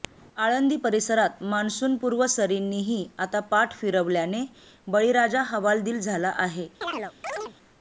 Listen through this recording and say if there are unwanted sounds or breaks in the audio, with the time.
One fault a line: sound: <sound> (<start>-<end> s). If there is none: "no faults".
sound: chirp (6.8-7.5 s)